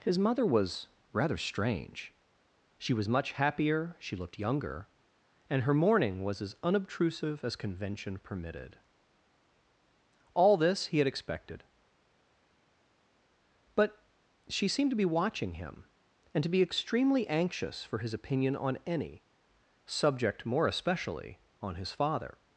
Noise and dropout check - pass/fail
pass